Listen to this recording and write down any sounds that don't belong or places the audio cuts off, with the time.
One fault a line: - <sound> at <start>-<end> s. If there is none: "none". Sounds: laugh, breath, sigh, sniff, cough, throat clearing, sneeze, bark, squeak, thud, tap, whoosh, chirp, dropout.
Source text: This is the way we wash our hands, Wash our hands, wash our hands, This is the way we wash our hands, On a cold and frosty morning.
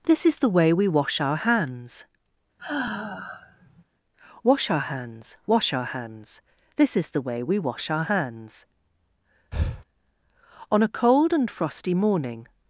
- sigh at 2.6-3.8 s
- breath at 9.5-9.8 s